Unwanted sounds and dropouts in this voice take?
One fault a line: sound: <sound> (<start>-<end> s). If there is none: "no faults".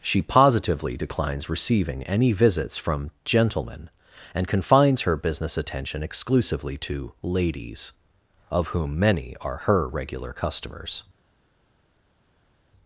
no faults